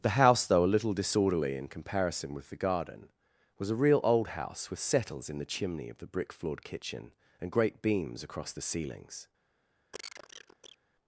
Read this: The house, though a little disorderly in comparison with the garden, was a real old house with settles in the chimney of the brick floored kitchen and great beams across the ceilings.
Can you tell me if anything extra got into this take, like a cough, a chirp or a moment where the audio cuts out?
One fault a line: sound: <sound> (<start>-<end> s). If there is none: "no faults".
sound: cough (9.9-10.8 s)